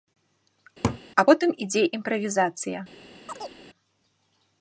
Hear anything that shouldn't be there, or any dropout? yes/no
yes